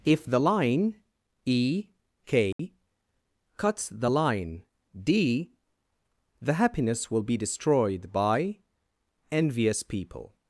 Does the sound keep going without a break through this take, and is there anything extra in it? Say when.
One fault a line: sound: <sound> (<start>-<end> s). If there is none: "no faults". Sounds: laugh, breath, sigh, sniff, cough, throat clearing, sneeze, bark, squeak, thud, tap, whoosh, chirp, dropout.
sound: dropout (2.5-2.6 s)